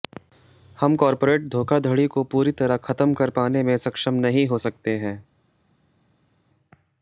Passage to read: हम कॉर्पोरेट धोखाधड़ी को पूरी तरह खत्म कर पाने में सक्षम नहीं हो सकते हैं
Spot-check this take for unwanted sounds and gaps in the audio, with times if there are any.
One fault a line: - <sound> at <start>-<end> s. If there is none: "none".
none